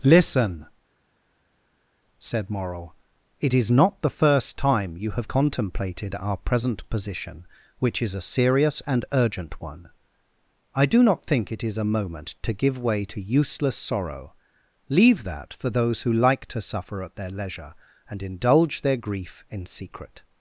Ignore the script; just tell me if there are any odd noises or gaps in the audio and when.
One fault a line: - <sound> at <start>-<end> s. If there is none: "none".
none